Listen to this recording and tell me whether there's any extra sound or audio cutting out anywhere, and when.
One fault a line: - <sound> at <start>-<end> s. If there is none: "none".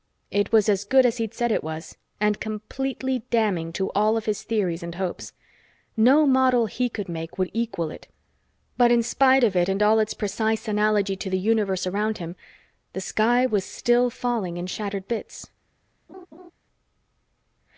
- laugh at 16.1-16.5 s